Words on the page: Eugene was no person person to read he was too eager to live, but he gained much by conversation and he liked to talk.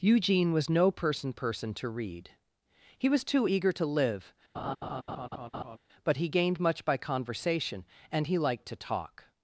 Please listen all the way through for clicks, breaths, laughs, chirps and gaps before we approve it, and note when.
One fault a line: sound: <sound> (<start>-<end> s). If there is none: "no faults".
sound: laugh (4.5-5.8 s)